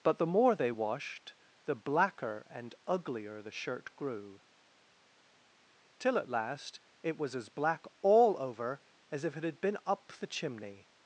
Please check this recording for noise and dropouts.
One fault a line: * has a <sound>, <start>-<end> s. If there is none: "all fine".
all fine